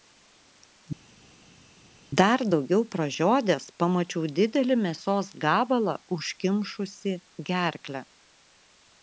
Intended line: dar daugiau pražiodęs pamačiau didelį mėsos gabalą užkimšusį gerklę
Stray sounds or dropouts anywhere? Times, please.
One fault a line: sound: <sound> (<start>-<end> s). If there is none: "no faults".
no faults